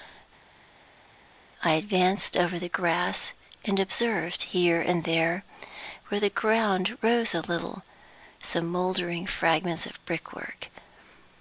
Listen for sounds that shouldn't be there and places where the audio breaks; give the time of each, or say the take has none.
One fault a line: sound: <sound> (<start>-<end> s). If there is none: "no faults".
no faults